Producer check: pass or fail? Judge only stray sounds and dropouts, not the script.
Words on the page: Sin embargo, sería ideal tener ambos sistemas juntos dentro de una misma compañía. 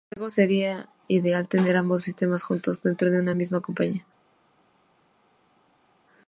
pass